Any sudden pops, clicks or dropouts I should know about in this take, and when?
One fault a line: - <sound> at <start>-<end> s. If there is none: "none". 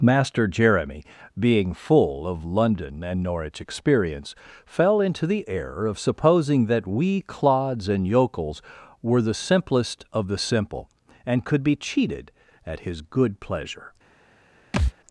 - thud at 14.7-14.9 s